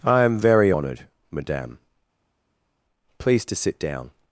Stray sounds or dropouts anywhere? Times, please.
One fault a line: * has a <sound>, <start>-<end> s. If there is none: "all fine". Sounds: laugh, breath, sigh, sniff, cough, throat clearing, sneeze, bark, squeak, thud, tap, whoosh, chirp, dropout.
all fine